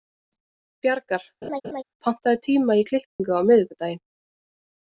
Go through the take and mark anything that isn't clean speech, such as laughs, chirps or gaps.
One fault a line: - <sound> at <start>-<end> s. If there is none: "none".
- laugh at 1.4-1.8 s
- dropout at 3.1-3.2 s